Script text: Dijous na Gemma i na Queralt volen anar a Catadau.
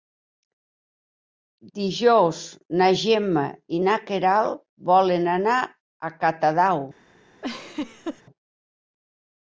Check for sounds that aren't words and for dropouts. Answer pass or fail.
fail